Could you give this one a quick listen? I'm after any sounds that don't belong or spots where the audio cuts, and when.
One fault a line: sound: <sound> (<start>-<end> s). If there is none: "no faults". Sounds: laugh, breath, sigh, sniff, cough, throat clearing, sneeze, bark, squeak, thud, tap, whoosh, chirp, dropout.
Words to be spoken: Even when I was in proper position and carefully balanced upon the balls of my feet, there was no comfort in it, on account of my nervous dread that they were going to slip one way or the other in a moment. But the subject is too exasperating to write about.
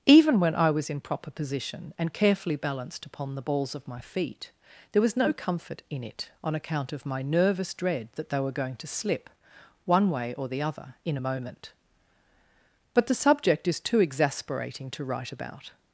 no faults